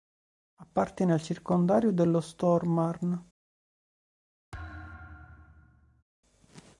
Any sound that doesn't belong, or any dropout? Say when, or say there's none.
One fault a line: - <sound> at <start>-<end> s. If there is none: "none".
- thud at 4.5-6.0 s